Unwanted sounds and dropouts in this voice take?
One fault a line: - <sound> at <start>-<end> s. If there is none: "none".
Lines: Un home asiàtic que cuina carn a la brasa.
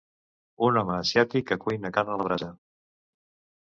none